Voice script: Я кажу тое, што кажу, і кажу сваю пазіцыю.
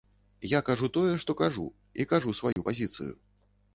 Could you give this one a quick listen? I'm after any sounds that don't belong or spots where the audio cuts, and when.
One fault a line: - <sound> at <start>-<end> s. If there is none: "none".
- dropout at 2.5-2.6 s